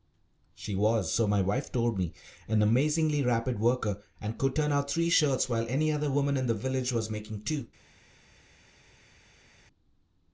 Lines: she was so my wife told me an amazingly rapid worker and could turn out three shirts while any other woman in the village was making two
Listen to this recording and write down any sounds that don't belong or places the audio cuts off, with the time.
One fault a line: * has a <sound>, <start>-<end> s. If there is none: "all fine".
all fine